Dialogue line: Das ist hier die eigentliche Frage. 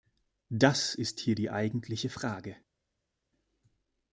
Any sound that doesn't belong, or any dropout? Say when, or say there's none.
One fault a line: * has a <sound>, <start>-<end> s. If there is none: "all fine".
all fine